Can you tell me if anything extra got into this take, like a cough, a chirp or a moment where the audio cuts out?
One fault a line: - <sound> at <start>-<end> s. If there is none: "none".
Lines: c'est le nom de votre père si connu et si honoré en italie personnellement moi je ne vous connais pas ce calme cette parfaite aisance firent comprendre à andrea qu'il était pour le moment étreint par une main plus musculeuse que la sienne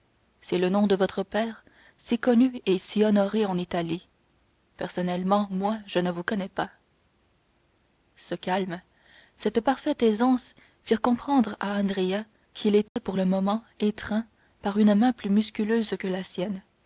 - dropout at 12.9-13.0 s